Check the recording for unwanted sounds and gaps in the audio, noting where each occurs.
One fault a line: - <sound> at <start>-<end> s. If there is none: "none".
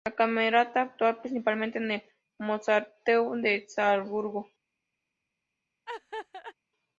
- laugh at 5.9-6.5 s